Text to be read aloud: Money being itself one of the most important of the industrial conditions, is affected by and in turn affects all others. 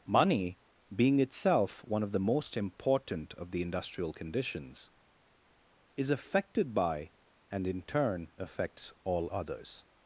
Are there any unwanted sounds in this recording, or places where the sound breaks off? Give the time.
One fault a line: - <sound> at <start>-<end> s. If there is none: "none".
none